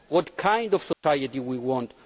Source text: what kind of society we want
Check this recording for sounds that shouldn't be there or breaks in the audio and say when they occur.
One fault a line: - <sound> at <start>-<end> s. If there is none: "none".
- dropout at 0.9-1.0 s